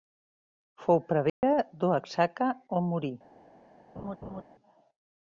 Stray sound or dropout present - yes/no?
yes